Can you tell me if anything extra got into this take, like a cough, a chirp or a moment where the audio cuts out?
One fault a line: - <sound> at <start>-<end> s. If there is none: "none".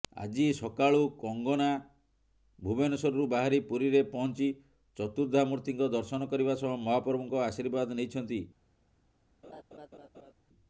- laugh at 9.4-10.3 s